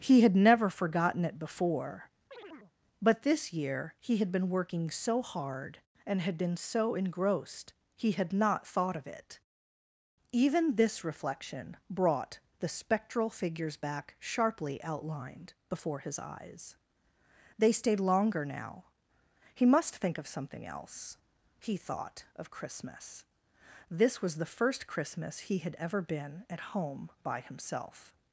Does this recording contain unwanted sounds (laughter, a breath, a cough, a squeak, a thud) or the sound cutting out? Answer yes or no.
yes